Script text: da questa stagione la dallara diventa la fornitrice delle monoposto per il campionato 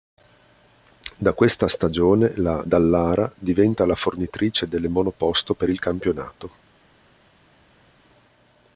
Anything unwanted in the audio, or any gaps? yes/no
no